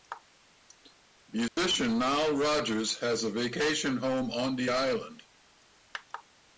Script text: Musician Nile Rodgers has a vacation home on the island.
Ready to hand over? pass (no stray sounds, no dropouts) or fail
fail